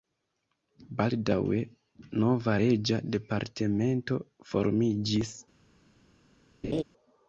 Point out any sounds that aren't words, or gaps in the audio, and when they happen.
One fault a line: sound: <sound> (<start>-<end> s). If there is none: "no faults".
sound: laugh (6.6-6.8 s)